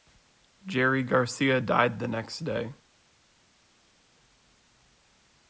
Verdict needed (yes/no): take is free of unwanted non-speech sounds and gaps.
yes